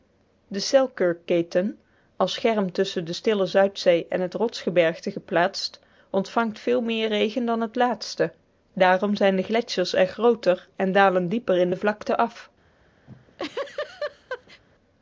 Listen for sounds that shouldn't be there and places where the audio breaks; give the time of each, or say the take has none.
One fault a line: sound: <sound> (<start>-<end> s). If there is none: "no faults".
sound: laugh (13.1-14.6 s)